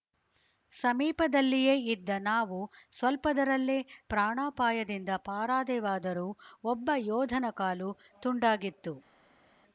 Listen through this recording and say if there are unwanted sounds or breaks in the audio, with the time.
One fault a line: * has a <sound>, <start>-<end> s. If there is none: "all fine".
all fine